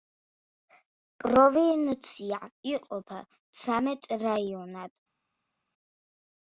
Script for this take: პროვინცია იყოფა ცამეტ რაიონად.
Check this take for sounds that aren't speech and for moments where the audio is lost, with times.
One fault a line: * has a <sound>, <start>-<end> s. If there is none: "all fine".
all fine